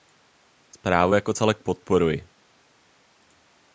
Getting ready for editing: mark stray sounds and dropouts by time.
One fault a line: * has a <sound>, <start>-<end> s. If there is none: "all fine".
all fine